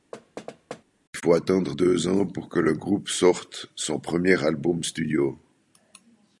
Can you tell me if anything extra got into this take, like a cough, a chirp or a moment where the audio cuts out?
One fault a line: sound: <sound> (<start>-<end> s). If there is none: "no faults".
sound: thud (0.1-0.8 s)